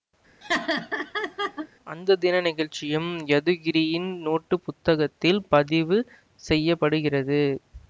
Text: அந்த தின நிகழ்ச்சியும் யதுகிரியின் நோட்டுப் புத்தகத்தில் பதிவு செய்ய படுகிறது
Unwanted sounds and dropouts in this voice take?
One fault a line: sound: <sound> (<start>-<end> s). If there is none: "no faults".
sound: laugh (0.4-1.7 s)